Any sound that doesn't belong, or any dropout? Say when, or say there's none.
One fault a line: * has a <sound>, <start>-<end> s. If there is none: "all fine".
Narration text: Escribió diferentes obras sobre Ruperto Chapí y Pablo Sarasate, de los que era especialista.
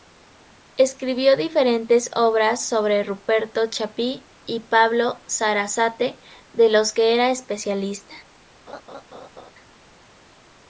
* has a laugh, 8.7-9.5 s